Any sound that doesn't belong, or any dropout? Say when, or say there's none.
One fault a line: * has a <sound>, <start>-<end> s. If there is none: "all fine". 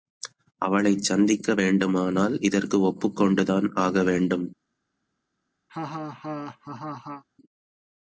* has a laugh, 5.7-7.2 s